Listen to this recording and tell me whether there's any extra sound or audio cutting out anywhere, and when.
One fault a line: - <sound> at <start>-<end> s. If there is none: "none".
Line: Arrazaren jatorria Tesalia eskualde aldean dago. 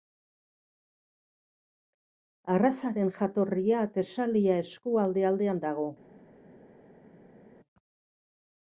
none